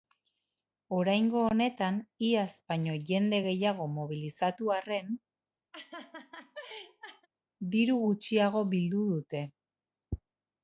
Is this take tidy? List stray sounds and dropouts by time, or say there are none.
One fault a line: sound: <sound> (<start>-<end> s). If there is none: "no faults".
sound: laugh (5.7-7.3 s)